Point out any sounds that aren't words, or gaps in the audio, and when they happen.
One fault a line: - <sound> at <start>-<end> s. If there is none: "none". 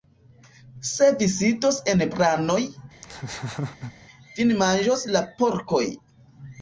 - laugh at 3.0-3.9 s